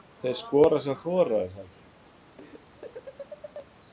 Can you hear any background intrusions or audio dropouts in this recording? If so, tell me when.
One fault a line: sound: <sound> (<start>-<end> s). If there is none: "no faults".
sound: laugh (2.4-3.7 s)